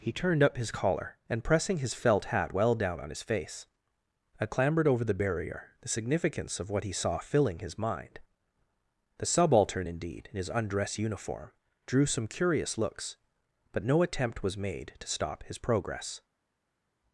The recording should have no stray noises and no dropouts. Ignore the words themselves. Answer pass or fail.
pass